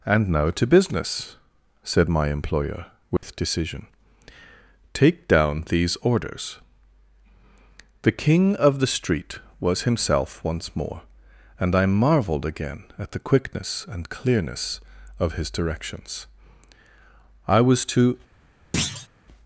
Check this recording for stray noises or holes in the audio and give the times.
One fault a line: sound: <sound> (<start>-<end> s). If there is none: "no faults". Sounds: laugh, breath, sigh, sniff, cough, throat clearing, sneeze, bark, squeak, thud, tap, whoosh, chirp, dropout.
sound: dropout (3.2-3.2 s)
sound: thud (18.7-19.1 s)